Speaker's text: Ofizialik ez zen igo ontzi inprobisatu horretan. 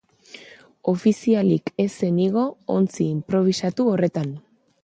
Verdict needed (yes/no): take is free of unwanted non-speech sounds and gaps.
yes